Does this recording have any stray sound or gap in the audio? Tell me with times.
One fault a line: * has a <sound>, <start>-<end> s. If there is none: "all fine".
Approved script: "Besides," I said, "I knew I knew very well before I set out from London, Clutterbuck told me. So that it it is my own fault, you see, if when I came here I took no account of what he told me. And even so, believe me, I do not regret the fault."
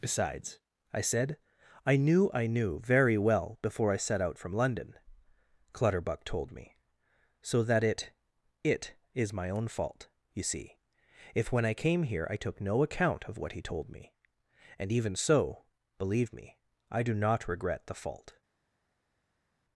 all fine